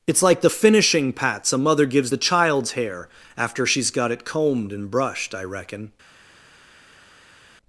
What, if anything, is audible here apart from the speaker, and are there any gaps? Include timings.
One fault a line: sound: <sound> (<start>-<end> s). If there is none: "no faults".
no faults